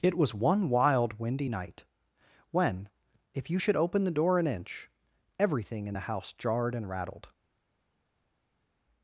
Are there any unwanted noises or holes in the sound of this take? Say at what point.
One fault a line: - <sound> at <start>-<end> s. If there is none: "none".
none